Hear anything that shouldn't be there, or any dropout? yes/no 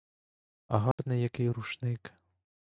yes